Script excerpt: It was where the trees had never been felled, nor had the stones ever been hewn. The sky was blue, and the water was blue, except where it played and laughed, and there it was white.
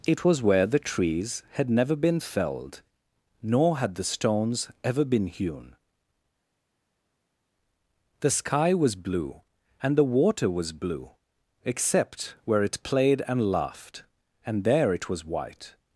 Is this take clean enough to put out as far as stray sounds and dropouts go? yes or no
yes